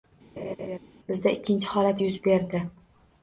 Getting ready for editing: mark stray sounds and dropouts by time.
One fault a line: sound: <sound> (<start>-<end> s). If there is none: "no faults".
sound: laugh (0.4-0.8 s)